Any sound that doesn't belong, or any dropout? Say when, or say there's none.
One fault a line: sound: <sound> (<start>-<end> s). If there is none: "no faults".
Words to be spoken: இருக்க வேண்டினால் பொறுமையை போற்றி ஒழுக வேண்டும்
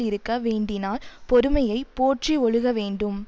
no faults